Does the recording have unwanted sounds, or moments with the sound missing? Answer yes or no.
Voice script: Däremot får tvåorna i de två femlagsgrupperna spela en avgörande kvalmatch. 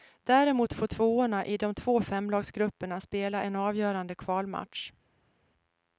no